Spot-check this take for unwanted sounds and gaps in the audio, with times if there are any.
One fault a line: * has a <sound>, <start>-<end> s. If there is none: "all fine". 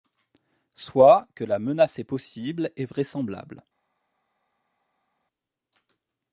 all fine